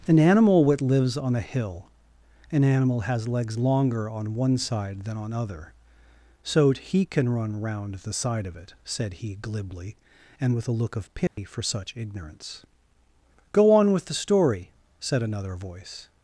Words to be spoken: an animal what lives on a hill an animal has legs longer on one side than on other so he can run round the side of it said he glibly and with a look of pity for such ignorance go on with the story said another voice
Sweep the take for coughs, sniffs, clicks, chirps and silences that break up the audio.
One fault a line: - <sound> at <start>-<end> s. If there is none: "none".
- dropout at 11.3-11.4 s